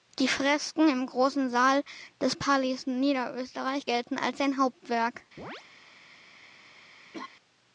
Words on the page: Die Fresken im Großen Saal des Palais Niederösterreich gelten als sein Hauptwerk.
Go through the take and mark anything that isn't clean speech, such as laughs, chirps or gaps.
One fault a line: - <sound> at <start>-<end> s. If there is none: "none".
- chirp at 5.4-5.6 s
- laugh at 7.1-7.3 s